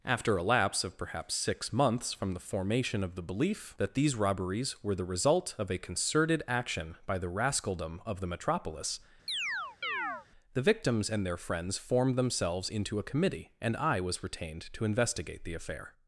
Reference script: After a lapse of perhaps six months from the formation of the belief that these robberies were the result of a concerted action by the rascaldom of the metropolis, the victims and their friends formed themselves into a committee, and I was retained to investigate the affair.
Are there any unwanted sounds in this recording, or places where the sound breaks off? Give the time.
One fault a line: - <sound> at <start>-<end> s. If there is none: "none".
- chirp at 9.3-10.3 s